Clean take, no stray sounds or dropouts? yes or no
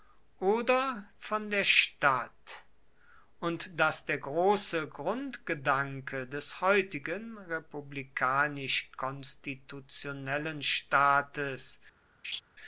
no